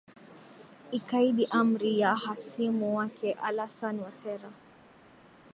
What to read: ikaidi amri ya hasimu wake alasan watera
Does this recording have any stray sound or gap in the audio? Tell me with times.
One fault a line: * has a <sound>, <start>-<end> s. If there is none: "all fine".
all fine